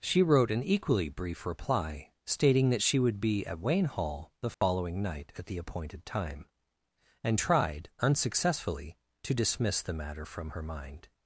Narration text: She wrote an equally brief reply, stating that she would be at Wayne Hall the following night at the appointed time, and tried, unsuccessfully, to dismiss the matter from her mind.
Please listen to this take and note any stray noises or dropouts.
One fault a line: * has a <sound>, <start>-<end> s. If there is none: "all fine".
* has a dropout, 4.5-4.6 s